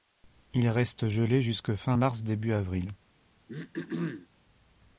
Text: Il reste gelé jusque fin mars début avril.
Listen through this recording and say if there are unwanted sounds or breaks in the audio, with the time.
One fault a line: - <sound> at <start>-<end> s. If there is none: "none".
- throat clearing at 3.5-4.3 s